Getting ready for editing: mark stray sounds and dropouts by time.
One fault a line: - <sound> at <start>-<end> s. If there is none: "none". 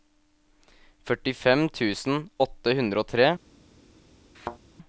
- thud at 4.3-4.6 s